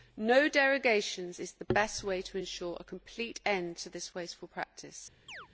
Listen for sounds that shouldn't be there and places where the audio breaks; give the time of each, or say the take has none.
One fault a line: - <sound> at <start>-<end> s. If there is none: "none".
- chirp at 5.3-5.5 s